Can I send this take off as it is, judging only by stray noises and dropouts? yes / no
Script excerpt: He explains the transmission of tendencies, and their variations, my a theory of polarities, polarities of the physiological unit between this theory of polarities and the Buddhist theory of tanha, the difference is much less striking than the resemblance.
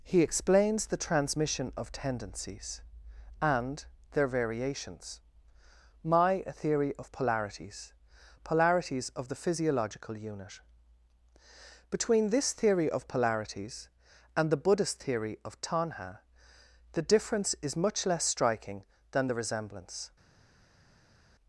yes